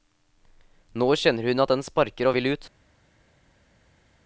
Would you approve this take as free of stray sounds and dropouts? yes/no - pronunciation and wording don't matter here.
yes